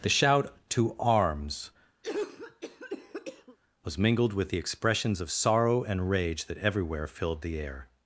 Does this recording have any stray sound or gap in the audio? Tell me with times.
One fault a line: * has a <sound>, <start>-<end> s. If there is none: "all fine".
* has a cough, 2.0-3.6 s